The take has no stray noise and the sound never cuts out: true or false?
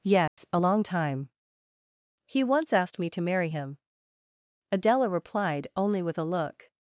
false